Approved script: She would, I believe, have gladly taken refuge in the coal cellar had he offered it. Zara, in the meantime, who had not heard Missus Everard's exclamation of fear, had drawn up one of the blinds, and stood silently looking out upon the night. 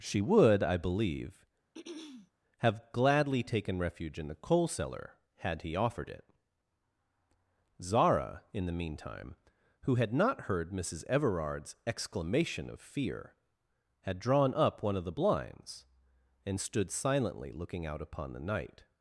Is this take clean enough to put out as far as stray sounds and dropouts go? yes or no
no